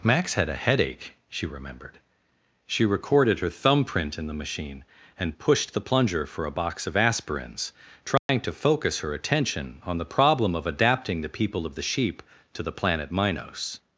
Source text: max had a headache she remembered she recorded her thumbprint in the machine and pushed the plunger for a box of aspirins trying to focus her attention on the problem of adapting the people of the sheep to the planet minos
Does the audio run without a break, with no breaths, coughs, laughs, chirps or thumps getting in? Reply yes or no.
no